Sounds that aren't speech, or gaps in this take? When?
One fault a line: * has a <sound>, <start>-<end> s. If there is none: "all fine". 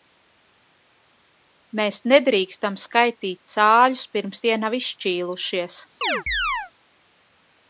* has a chirp, 6.0-6.7 s